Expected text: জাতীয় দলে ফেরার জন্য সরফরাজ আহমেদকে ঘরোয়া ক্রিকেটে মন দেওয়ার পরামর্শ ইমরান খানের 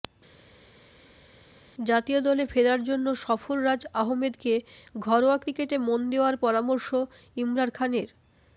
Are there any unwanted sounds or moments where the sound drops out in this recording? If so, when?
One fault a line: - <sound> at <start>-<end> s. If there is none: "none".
none